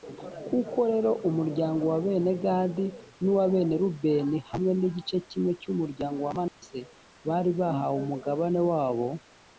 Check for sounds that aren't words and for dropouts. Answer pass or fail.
fail